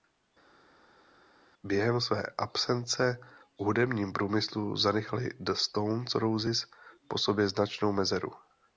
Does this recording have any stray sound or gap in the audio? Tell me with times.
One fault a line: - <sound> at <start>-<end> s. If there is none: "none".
none